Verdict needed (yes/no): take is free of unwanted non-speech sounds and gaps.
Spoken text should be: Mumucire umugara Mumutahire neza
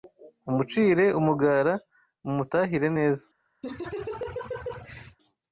no